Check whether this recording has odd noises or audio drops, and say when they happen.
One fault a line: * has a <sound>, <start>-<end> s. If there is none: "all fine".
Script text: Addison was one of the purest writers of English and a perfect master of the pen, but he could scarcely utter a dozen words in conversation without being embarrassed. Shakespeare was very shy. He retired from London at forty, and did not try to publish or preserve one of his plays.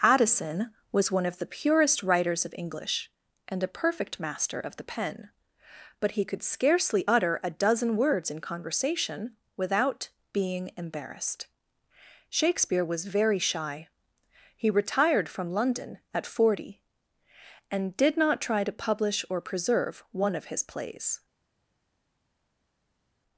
all fine